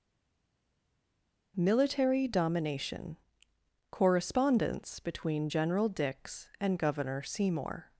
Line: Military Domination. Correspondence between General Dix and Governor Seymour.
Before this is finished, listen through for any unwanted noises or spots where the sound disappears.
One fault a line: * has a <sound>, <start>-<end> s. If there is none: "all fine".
all fine